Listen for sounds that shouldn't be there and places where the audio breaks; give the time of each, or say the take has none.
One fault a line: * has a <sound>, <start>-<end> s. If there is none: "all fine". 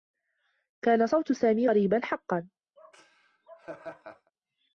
* has a laugh, 2.8-4.3 s